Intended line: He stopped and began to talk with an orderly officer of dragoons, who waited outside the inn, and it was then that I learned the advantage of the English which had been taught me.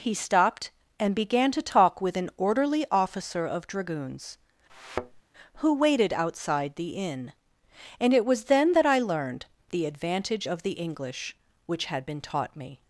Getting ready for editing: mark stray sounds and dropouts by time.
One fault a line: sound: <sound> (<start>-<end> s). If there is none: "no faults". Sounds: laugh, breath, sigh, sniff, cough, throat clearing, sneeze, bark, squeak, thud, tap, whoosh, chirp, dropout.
sound: thud (4.7-5.2 s)